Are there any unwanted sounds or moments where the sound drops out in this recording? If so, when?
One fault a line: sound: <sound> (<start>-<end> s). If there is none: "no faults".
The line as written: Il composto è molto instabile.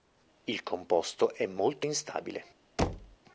sound: thud (2.8-3.2 s)